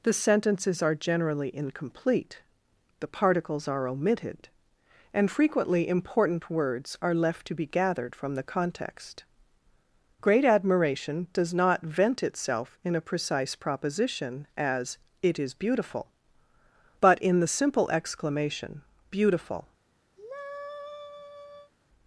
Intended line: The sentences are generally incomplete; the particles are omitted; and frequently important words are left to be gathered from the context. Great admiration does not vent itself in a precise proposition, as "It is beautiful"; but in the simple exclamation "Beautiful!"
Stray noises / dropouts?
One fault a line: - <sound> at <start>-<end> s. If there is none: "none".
- sigh at 20.2-21.7 s